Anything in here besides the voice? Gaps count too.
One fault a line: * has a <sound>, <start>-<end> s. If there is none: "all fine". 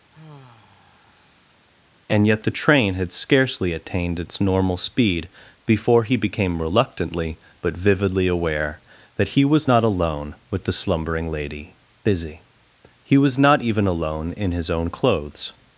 * has a sigh, 0.1-1.6 s